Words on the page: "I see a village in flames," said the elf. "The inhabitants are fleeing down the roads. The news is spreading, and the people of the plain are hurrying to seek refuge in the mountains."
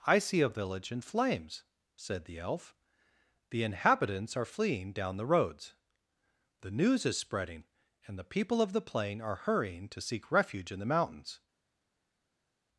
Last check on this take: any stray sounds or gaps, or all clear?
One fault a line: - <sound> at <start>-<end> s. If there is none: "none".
none